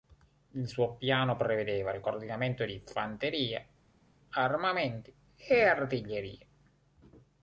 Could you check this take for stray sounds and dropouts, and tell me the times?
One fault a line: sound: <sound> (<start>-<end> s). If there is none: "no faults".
no faults